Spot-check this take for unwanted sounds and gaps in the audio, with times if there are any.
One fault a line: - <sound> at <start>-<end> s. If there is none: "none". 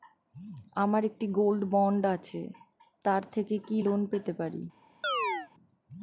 - chirp at 5.0-5.5 s